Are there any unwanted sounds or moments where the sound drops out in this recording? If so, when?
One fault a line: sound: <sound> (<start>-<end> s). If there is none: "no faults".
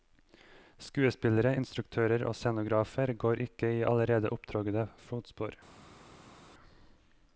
no faults